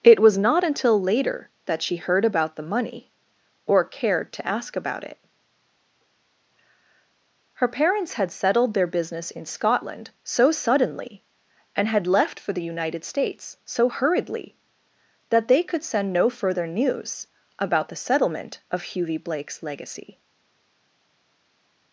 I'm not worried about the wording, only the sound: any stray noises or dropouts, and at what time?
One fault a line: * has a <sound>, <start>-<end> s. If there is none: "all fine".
all fine